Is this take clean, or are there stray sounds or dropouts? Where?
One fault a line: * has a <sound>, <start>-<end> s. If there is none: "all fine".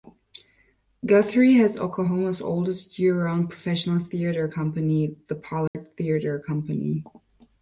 * has a dropout, 5.7-5.7 s